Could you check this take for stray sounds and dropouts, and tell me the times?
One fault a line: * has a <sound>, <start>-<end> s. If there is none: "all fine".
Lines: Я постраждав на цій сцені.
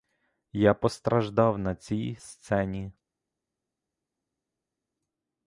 all fine